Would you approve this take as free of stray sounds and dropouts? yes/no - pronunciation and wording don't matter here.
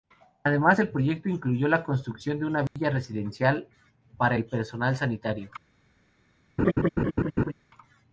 no